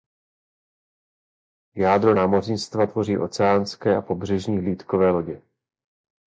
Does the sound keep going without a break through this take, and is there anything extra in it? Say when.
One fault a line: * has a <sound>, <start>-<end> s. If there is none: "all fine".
all fine